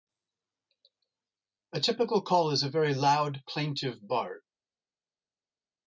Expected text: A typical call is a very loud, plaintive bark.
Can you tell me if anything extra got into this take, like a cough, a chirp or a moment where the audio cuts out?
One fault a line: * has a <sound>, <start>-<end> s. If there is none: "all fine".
all fine